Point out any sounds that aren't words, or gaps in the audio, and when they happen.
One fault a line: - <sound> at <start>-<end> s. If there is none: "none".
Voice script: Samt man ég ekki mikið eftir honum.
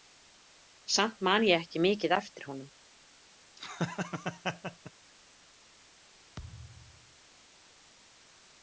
- laugh at 3.6-4.9 s
- thud at 6.4-7.2 s